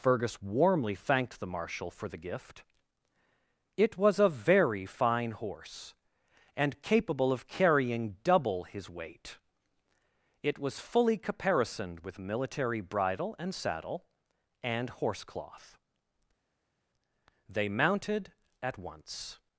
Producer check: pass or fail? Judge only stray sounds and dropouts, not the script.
pass